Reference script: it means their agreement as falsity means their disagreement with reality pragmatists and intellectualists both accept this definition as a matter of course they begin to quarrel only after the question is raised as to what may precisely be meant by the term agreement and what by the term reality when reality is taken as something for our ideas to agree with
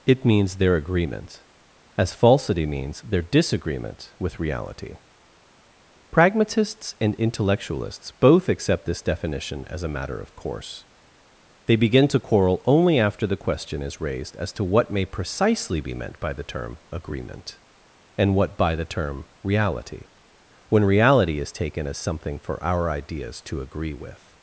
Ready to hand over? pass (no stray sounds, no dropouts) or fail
pass